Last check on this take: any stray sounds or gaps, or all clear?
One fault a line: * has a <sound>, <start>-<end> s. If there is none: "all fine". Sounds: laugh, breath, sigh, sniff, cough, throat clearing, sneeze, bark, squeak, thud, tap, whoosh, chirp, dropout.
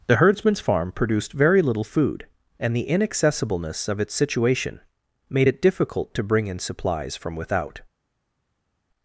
all fine